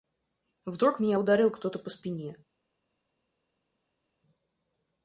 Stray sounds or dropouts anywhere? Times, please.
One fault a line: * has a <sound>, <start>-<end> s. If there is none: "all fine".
all fine